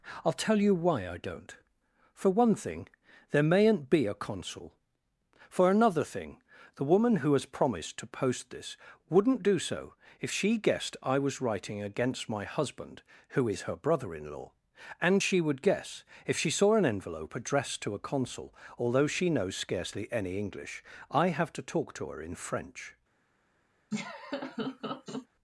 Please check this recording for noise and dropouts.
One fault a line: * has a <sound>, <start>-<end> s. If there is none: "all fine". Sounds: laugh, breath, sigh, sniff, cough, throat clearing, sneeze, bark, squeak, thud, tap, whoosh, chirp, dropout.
* has a laugh, 23.9-25.3 s